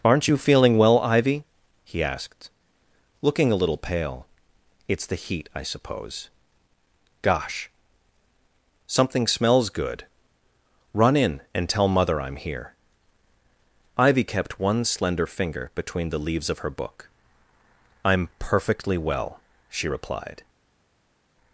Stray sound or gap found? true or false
false